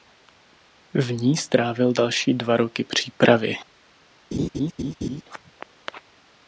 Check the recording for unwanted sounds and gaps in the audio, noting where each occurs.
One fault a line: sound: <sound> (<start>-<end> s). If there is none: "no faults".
sound: laugh (4.3-5.2 s)